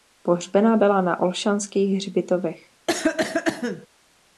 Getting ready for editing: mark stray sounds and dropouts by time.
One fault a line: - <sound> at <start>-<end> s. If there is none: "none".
- cough at 2.9-3.9 s